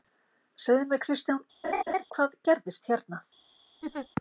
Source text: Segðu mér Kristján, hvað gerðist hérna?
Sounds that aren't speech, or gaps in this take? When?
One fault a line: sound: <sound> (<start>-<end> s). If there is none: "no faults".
sound: laugh (1.6-2.1 s)
sound: laugh (3.8-4.1 s)